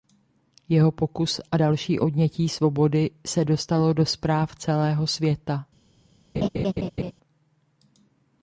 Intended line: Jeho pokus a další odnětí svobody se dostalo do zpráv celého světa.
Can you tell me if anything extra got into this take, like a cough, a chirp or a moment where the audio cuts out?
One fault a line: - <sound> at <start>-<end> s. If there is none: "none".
- laugh at 6.3-7.1 s